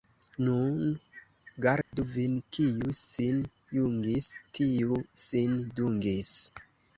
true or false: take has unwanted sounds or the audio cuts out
true